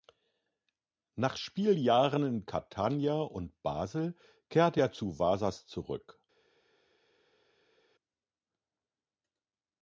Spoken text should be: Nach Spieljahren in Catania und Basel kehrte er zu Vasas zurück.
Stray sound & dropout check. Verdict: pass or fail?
pass